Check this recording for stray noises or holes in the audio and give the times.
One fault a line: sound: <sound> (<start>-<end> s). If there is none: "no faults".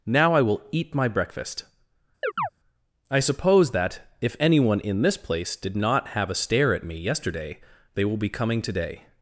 sound: chirp (2.2-2.5 s)